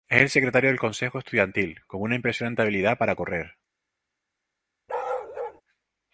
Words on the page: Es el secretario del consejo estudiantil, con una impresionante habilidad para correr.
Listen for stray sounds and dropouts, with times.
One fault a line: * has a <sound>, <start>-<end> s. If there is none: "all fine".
* has a bark, 4.9-5.6 s